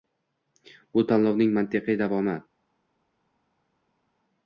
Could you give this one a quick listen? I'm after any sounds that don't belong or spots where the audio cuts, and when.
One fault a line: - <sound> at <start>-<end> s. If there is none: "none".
none